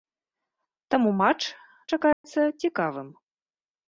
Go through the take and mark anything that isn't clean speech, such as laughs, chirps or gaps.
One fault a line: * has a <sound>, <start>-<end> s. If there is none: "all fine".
* has a dropout, 2.1-2.2 s